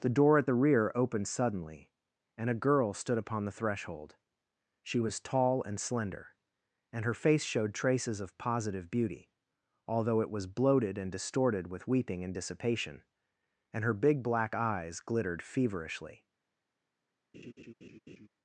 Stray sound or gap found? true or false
true